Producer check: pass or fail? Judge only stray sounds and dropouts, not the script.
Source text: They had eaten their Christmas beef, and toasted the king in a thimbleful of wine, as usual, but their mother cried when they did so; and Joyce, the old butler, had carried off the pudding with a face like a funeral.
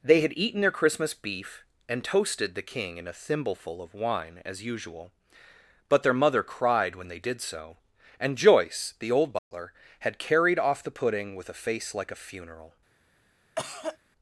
fail